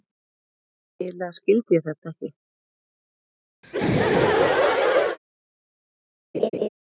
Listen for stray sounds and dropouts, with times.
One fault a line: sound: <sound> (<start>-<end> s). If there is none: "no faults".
sound: laugh (3.6-5.2 s)
sound: laugh (6.3-6.7 s)